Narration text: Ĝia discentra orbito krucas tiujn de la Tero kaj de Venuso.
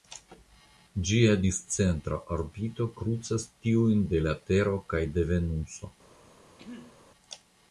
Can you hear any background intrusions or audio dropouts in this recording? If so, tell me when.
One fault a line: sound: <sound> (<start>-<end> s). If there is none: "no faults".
sound: throat clearing (6.6-7.0 s)